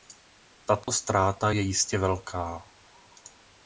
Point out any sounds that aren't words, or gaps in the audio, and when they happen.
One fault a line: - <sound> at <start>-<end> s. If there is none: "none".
- dropout at 0.8-0.9 s